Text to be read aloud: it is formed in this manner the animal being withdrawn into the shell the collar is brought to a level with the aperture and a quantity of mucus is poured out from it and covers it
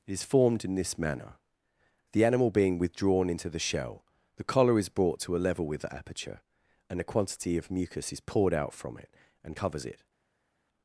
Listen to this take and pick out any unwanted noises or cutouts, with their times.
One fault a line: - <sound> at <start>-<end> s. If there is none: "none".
none